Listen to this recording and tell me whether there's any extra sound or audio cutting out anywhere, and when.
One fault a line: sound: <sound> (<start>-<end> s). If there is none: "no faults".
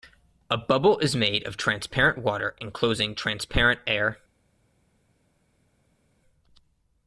no faults